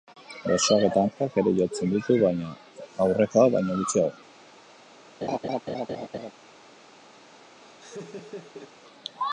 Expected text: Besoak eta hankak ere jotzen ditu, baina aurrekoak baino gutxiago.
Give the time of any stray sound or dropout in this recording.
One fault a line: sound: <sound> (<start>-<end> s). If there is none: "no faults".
sound: laugh (5.2-6.3 s)
sound: laugh (7.6-8.7 s)